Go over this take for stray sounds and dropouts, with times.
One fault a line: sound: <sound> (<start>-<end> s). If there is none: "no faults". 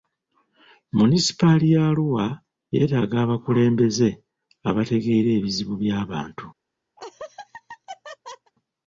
sound: laugh (7.0-8.5 s)